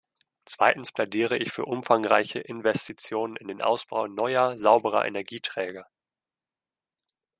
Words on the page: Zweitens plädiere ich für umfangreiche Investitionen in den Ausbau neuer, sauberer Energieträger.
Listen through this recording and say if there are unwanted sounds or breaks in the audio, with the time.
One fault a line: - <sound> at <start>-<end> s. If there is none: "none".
none